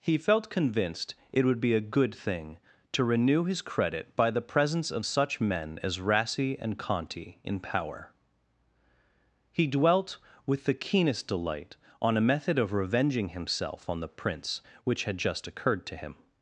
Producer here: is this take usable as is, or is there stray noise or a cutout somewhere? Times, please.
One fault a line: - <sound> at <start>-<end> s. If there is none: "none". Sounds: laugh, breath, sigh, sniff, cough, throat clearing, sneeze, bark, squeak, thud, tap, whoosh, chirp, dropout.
none